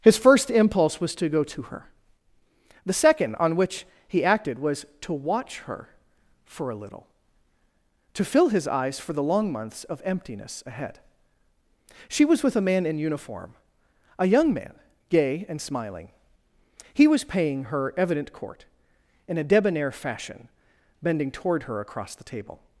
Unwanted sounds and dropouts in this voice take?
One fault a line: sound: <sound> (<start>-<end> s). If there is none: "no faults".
no faults